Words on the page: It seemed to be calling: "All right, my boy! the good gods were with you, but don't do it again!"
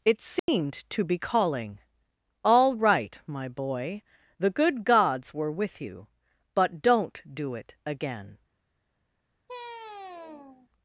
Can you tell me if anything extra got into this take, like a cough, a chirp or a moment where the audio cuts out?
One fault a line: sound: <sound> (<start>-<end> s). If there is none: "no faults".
sound: dropout (0.4-0.5 s)
sound: sigh (9.5-10.7 s)